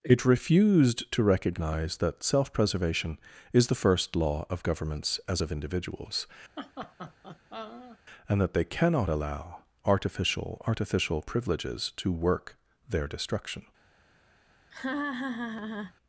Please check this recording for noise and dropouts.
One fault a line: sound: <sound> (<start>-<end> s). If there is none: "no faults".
sound: laugh (6.6-8.0 s)
sound: laugh (14.7-15.9 s)